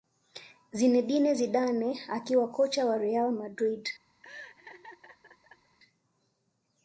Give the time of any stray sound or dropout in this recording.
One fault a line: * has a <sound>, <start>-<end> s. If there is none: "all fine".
* has a laugh, 4.2-5.8 s